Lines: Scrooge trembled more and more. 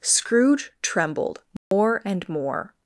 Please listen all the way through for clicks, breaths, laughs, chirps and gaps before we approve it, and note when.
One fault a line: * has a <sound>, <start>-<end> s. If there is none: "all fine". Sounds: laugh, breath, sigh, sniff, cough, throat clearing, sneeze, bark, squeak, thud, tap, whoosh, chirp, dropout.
* has a dropout, 1.6-1.7 s